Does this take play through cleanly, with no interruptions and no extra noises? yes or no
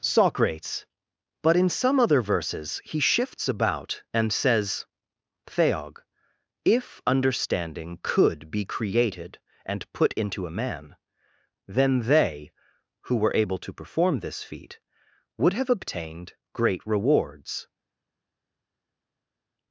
yes